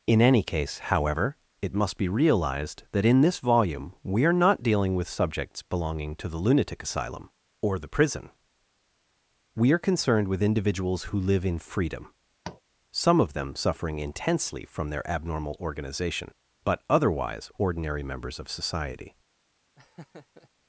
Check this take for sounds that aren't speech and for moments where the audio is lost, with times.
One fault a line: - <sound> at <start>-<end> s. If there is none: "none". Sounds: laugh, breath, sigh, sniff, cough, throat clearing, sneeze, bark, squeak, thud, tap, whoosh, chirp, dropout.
- tap at 12.4-12.6 s
- laugh at 19.8-20.5 s